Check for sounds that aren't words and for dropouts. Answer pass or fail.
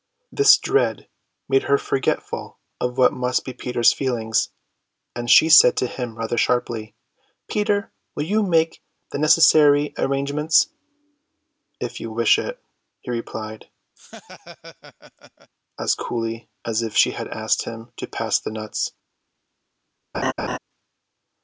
fail